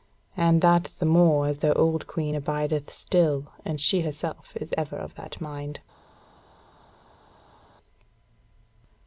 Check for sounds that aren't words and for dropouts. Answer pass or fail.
pass